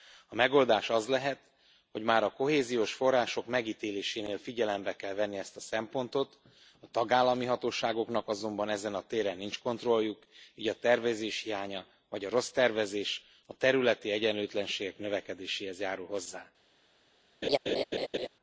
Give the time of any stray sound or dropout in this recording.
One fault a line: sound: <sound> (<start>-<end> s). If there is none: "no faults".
sound: laugh (17.4-18.3 s)